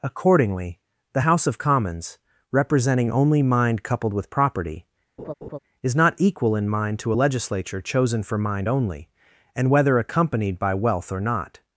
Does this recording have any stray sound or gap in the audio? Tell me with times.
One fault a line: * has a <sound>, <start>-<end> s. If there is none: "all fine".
* has a laugh, 5.2-5.6 s